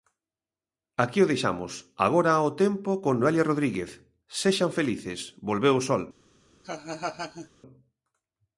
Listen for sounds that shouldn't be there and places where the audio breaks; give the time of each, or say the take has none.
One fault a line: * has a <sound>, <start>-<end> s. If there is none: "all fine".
* has a laugh, 6.6-7.5 s